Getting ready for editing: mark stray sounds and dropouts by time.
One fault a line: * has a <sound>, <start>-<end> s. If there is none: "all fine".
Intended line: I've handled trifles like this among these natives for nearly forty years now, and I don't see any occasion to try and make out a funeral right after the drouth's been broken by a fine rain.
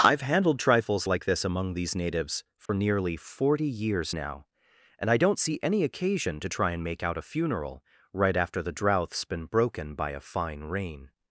* has a dropout, 2.7-2.7 s